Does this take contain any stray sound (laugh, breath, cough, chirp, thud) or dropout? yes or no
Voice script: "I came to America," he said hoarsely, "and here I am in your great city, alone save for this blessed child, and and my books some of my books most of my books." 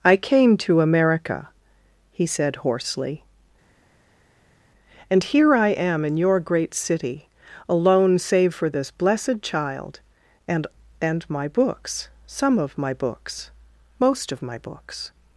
no